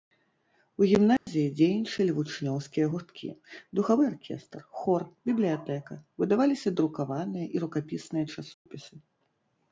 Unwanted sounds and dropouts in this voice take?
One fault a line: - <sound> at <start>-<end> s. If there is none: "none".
- dropout at 1.2-1.3 s
- dropout at 8.5-8.7 s